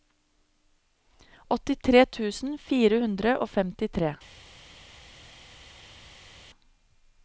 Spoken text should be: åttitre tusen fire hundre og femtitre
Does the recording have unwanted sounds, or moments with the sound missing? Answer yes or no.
no